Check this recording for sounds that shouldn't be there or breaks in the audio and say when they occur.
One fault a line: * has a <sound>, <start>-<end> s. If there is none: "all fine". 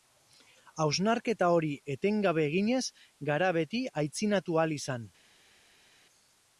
all fine